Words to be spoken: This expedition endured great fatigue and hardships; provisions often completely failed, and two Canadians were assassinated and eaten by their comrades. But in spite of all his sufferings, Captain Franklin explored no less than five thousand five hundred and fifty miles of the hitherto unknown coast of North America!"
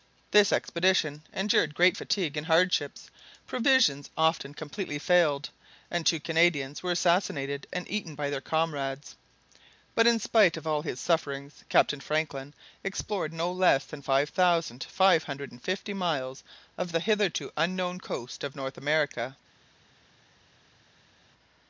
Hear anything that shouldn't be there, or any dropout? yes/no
no